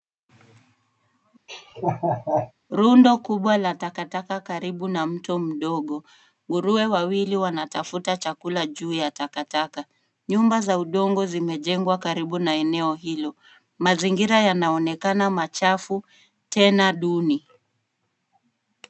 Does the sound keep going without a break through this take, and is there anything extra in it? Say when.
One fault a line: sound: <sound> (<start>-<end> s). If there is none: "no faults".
sound: laugh (1.5-2.5 s)